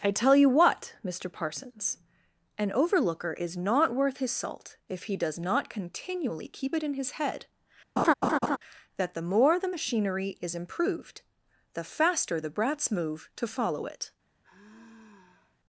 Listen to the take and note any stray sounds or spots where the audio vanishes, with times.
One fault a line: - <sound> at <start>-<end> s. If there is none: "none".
- laugh at 8.0-8.6 s
- sigh at 14.4-15.6 s